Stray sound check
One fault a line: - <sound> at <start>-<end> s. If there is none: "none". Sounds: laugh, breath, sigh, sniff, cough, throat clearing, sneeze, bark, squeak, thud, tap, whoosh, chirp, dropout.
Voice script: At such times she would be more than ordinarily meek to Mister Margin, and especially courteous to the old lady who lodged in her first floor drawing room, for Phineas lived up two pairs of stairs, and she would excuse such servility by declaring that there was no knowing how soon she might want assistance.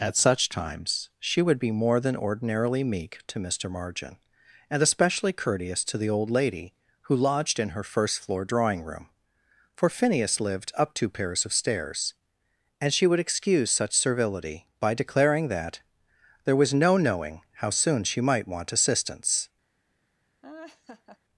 - laugh at 20.4-21.2 s